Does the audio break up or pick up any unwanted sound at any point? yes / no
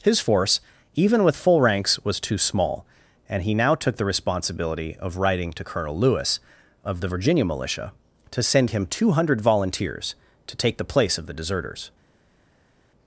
no